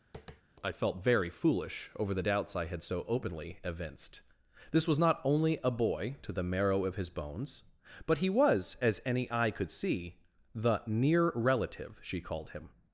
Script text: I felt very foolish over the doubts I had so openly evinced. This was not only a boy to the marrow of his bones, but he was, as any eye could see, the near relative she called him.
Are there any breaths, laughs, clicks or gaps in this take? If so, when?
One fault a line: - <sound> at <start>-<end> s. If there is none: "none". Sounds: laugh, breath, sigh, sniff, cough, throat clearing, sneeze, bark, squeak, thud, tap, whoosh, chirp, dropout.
- tap at 0.1-0.4 s